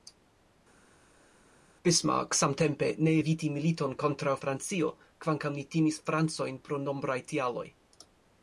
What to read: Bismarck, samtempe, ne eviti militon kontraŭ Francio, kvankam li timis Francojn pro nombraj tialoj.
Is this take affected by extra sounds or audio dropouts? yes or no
no